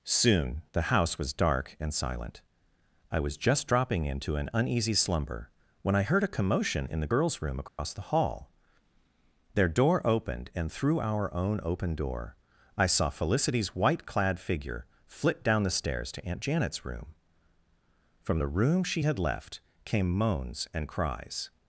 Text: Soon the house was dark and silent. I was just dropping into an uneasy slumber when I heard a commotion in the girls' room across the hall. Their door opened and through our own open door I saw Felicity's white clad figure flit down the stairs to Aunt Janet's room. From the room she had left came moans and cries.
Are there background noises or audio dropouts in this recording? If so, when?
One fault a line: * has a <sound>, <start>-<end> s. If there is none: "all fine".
* has a dropout, 7.7-7.8 s